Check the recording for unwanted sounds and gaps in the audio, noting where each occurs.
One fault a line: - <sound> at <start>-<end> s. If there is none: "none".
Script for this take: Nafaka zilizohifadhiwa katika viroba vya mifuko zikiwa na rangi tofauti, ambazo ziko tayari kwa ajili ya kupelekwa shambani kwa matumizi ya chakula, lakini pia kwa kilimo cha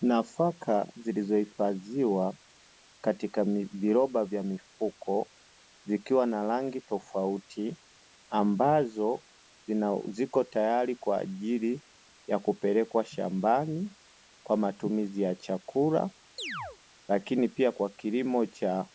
- chirp at 16.4-16.8 s